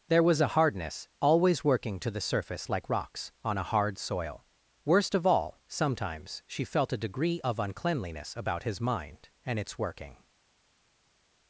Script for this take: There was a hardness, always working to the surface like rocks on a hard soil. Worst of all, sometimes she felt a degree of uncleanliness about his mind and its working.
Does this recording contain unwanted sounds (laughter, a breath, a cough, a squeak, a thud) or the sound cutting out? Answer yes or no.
no